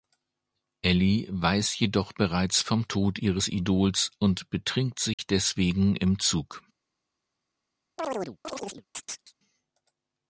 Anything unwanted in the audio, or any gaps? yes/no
yes